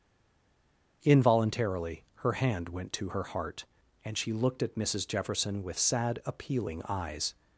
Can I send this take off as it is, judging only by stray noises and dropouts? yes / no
yes